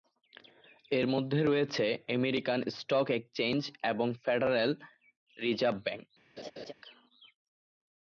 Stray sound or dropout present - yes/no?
yes